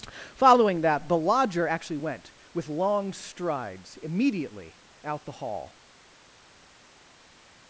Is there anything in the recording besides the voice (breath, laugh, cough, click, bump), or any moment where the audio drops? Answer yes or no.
no